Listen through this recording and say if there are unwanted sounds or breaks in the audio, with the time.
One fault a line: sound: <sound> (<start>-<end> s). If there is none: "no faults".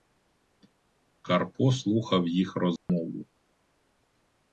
sound: dropout (2.8-2.9 s)